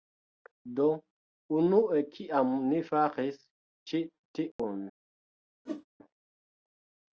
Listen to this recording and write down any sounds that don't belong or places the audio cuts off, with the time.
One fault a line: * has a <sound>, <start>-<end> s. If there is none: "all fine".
* has a dropout, 4.5-4.6 s
* has a whoosh, 5.7-5.9 s